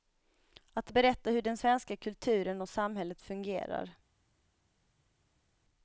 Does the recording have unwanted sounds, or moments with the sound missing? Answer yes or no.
no